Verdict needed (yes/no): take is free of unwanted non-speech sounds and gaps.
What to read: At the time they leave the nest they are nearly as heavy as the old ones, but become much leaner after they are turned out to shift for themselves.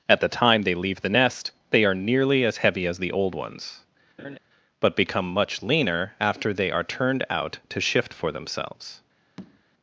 no